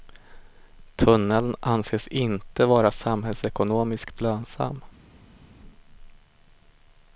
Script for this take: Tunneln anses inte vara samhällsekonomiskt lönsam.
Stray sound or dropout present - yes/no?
no